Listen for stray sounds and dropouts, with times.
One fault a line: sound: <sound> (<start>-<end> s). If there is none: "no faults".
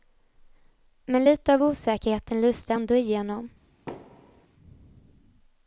sound: thud (3.9-4.5 s)